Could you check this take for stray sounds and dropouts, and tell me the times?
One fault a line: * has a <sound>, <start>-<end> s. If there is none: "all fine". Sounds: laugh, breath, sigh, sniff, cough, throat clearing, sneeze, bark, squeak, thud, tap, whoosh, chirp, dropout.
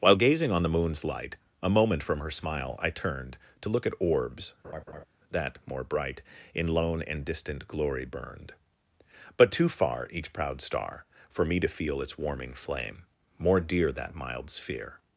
* has a laugh, 4.6-5.0 s